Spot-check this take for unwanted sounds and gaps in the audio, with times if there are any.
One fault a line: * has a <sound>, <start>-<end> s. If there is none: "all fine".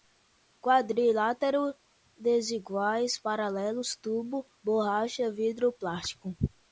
all fine